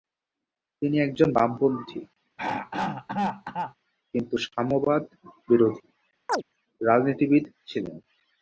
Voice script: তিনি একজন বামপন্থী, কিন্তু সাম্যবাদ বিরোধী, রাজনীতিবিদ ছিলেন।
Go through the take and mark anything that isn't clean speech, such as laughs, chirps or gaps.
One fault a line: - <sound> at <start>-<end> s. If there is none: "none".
- throat clearing at 2.4-3.8 s
- chirp at 6.3-6.4 s